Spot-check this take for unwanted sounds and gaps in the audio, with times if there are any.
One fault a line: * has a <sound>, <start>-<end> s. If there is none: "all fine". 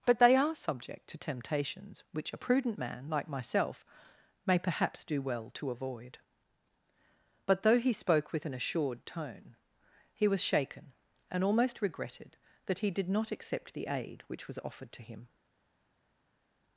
all fine